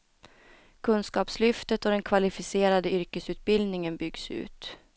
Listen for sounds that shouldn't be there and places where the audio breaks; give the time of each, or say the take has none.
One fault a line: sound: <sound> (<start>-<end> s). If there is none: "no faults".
no faults